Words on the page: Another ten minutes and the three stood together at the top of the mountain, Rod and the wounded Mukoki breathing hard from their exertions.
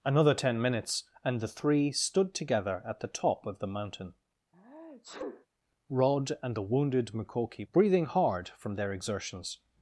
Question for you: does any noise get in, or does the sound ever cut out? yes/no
yes